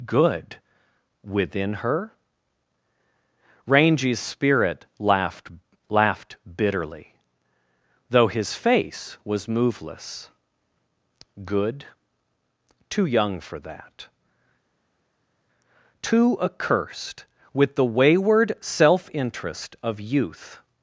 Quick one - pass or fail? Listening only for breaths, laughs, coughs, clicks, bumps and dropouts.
pass